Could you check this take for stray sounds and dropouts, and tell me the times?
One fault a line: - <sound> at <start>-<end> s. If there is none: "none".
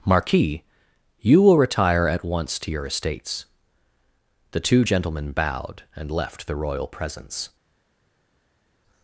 none